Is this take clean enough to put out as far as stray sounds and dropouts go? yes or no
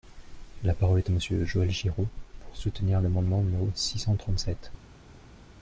yes